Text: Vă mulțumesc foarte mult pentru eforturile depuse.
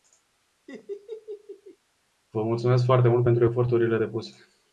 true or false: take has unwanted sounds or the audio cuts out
true